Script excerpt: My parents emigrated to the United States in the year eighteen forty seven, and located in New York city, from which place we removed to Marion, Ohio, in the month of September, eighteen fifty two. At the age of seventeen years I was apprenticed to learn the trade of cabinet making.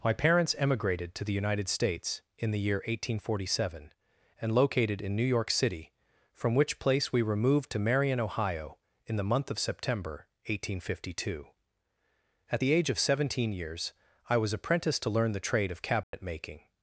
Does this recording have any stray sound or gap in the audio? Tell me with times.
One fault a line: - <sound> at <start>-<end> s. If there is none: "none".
- dropout at 16.0-16.1 s